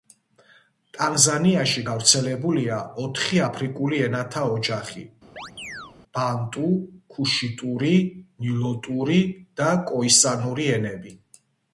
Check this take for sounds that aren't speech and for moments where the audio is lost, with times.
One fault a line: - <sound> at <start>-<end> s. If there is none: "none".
- chirp at 5.4-5.9 s